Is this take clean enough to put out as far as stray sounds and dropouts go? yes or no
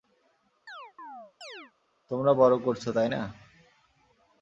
no